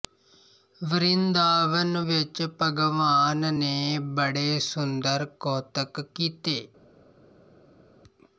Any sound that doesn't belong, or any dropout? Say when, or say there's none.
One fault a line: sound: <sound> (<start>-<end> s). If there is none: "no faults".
no faults